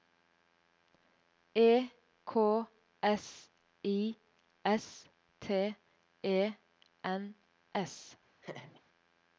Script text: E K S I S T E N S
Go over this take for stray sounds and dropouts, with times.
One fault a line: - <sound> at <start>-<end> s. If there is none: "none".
- laugh at 8.4-8.8 s